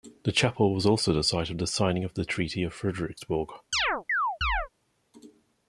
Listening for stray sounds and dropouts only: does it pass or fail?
fail